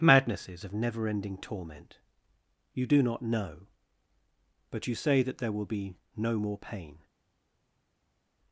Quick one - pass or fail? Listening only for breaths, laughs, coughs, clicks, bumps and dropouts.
pass